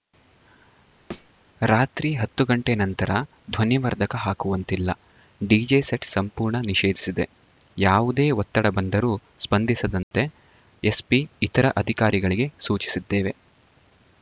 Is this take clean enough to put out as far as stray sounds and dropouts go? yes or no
no